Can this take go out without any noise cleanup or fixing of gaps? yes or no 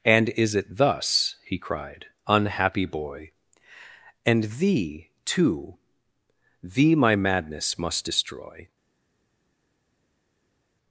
yes